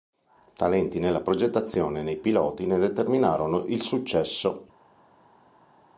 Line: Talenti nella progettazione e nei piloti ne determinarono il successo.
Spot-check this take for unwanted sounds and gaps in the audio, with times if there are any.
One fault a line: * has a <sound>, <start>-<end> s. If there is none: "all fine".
all fine